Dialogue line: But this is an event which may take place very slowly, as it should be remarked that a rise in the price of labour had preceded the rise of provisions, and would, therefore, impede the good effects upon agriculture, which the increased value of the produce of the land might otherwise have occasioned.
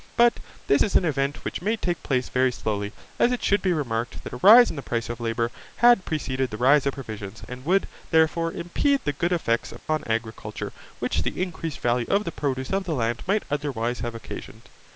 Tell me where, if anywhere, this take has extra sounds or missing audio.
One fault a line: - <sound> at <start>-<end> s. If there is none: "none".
- dropout at 9.8-9.9 s